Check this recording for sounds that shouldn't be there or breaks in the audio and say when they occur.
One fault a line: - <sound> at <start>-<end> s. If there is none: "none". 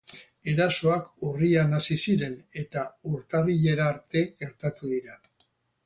none